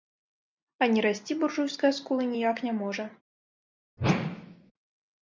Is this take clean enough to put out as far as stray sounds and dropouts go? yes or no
no